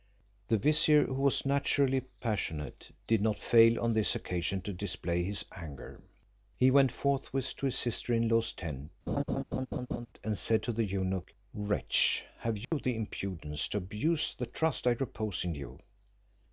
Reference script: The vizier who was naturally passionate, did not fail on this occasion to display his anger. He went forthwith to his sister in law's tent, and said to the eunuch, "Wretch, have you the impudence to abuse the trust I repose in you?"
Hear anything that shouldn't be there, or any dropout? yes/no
yes